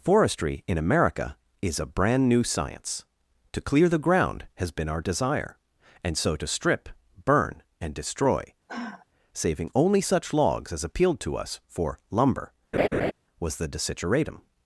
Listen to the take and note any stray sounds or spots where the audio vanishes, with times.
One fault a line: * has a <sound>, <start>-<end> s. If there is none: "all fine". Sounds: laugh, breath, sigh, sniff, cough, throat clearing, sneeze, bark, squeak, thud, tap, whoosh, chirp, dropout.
* has a sigh, 8.7-9.1 s
* has a laugh, 12.7-13.1 s